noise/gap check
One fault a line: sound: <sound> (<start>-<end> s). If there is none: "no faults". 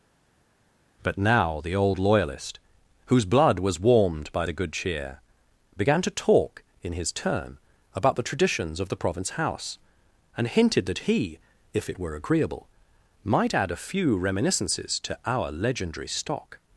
no faults